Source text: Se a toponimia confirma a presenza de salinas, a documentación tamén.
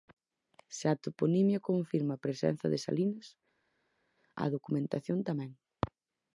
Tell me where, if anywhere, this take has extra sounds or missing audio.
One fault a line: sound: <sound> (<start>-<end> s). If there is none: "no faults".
no faults